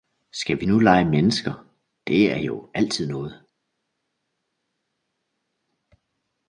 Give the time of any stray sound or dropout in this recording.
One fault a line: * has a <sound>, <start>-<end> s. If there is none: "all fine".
all fine